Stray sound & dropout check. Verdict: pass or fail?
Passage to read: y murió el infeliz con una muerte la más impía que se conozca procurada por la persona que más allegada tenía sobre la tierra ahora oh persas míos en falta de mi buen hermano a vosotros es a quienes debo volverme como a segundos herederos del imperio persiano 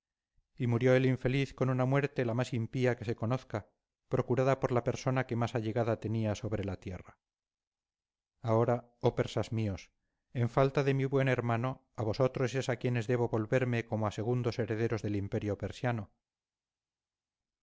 pass